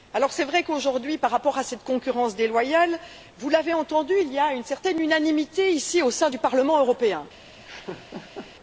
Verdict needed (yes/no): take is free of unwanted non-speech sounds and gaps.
no